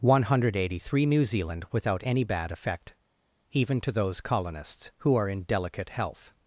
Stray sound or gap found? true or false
false